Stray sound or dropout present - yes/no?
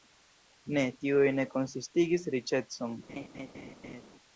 yes